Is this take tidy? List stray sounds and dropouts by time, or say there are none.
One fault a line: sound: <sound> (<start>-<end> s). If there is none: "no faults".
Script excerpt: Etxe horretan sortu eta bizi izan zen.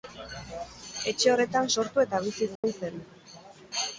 sound: dropout (2.6-2.6 s)